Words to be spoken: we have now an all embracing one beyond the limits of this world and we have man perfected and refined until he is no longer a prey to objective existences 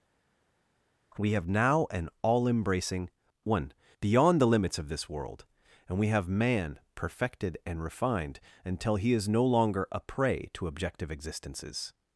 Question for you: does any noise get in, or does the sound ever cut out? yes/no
no